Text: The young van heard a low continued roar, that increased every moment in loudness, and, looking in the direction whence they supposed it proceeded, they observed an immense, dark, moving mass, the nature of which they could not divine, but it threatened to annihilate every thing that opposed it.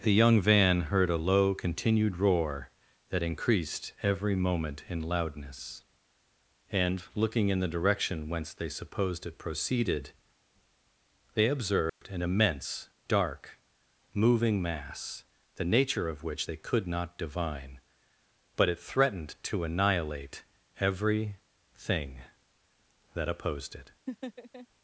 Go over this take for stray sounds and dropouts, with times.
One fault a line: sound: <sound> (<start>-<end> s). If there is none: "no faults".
sound: dropout (11.9-12.0 s)
sound: laugh (24.1-24.7 s)